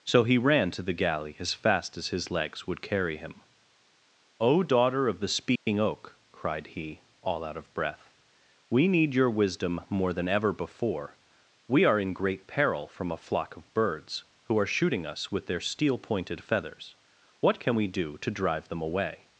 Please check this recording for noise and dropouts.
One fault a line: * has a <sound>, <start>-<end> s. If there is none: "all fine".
* has a dropout, 5.6-5.7 s